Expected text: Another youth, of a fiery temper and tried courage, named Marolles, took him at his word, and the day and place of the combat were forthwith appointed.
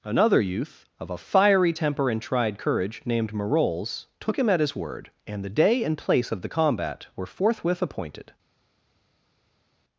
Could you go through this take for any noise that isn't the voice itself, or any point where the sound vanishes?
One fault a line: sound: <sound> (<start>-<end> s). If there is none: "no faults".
no faults